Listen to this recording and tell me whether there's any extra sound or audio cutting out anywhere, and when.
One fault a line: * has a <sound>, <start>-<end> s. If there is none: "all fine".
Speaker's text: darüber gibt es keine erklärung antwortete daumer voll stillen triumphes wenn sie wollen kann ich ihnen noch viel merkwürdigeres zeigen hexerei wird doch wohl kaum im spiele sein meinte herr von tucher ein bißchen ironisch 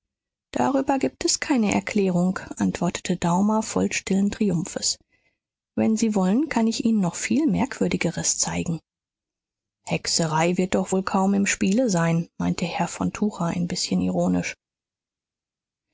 all fine